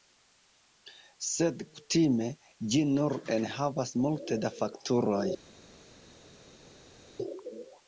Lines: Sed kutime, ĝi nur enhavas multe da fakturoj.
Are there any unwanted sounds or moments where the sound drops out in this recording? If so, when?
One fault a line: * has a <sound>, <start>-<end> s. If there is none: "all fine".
all fine